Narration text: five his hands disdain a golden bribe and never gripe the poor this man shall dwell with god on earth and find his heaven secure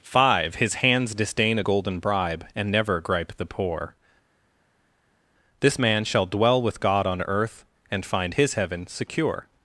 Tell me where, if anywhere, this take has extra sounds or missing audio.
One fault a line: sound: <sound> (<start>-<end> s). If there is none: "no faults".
no faults